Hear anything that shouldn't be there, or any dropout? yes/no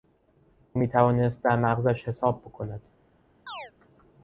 yes